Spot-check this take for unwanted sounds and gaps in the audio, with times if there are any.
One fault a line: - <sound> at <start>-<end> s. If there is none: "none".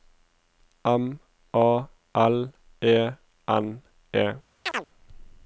- chirp at 4.6-4.9 s